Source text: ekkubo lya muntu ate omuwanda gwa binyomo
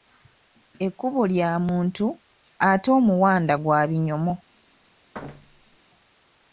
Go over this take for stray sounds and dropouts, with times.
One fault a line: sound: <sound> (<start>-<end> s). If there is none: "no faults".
sound: thud (5.1-5.8 s)